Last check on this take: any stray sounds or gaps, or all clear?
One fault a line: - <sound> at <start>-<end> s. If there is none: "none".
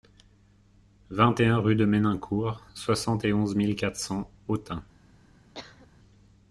- cough at 5.5-5.9 s